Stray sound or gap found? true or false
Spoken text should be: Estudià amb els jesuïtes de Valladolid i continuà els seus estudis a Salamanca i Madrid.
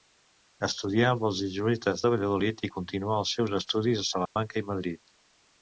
true